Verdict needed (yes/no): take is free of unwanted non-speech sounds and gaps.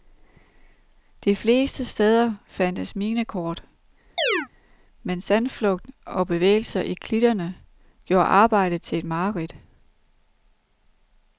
no